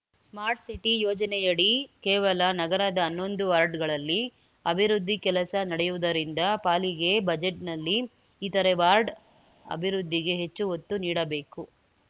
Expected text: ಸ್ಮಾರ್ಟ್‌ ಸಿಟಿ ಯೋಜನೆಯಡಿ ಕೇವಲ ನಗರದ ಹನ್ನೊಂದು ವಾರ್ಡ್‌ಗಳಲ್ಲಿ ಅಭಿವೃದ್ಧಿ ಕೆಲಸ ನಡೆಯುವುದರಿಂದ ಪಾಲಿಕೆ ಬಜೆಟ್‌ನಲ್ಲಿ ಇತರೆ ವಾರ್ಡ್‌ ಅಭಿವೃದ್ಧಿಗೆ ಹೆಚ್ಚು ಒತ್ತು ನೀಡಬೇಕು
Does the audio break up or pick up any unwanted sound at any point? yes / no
no